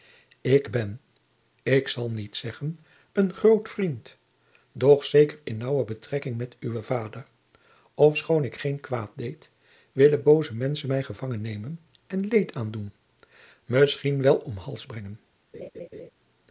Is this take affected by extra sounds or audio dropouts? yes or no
yes